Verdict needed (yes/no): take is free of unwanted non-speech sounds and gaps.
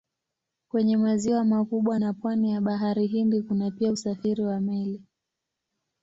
yes